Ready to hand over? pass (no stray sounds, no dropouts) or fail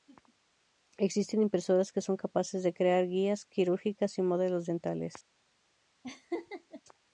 fail